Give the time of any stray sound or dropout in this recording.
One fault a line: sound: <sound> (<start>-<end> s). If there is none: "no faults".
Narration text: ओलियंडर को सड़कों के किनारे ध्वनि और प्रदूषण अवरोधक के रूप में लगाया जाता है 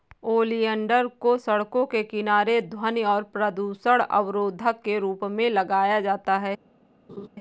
sound: laugh (7.1-7.3 s)